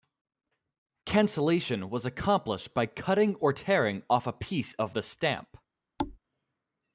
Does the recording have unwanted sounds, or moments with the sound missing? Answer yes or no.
yes